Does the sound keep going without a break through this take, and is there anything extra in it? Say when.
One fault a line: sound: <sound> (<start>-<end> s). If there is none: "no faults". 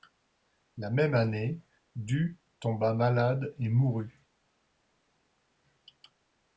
no faults